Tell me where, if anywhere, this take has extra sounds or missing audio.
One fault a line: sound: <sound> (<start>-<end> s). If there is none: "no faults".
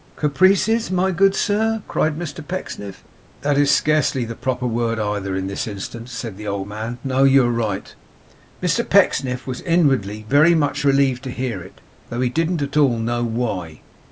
no faults